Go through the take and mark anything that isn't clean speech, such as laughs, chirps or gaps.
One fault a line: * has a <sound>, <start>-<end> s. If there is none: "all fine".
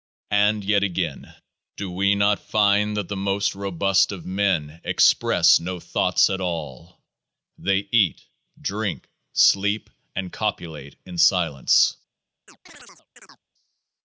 * has a chirp, 12.5-13.4 s